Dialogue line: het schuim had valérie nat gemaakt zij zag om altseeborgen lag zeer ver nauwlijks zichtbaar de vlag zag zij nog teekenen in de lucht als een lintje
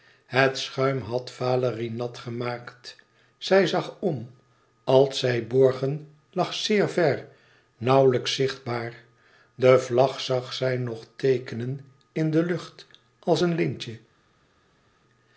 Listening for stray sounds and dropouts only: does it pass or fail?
pass